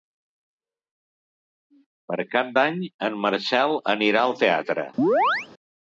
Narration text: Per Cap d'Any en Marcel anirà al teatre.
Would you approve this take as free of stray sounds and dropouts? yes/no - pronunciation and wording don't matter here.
no